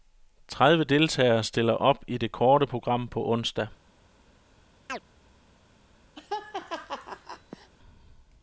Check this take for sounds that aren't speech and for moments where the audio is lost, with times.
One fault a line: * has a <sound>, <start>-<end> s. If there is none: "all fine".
* has a chirp, 4.9-5.0 s
* has a laugh, 6.2-7.7 s